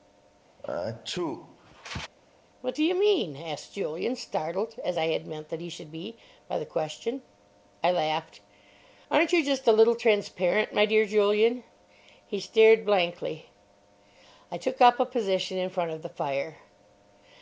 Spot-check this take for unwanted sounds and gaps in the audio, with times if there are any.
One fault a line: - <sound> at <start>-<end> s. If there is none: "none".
- sneeze at 0.6-2.1 s